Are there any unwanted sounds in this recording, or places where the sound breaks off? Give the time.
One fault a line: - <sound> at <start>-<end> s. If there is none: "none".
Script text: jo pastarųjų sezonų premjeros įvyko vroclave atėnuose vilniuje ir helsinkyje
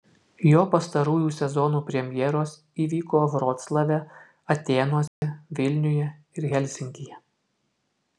- dropout at 5.1-5.2 s